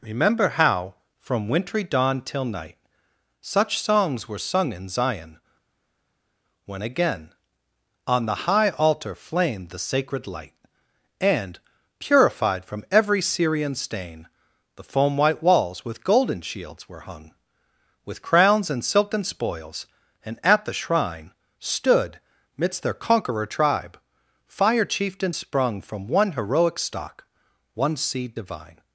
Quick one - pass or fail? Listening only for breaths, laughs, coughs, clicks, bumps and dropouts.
pass